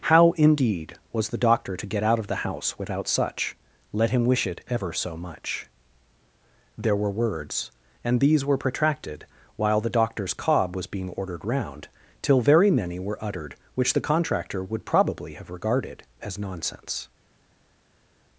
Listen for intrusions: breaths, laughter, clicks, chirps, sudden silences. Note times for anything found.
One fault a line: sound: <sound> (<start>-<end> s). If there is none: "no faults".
no faults